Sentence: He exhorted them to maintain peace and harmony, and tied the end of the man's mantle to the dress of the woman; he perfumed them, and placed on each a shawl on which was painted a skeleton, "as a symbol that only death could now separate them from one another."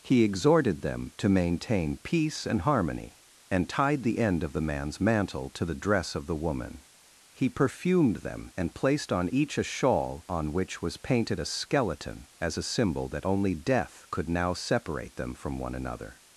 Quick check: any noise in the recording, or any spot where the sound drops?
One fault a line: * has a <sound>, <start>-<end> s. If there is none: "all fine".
all fine